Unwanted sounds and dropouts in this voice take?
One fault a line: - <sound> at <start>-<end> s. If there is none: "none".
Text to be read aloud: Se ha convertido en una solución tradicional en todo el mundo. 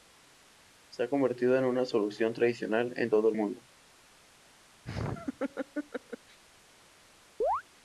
- laugh at 4.8-6.4 s
- chirp at 7.4-7.6 s